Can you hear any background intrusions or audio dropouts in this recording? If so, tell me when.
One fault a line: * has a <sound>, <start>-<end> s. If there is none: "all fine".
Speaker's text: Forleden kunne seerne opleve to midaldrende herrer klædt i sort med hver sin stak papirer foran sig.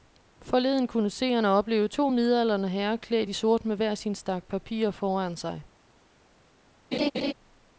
* has a laugh, 6.9-7.3 s